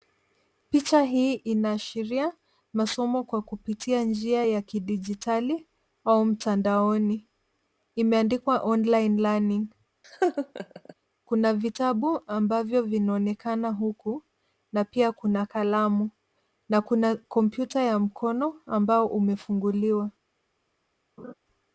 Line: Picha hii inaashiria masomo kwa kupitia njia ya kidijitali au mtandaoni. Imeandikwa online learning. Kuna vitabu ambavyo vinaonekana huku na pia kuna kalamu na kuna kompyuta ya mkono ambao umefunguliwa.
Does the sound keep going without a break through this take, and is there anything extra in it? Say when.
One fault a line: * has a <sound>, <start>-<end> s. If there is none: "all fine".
* has a laugh, 10.0-10.9 s
* has a laugh, 21.2-21.3 s